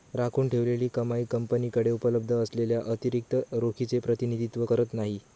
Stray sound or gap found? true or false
false